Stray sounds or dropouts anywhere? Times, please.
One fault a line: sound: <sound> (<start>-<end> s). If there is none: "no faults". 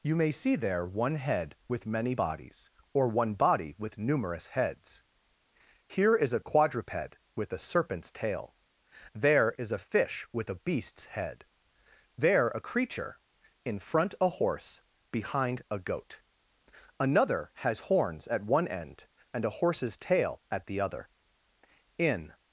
no faults